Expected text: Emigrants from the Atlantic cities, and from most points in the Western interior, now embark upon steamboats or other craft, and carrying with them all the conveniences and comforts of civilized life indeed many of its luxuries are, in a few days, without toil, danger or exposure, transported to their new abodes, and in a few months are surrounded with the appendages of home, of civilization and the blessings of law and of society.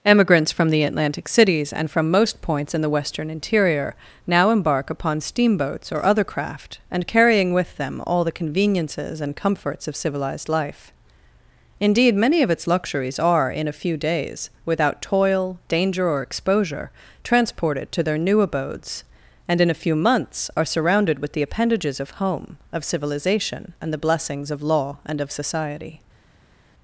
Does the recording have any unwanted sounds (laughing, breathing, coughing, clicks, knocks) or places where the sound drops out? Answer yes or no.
no